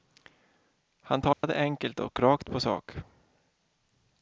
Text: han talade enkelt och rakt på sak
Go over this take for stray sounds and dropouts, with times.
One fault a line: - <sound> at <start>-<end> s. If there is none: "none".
- dropout at 1.3-1.4 s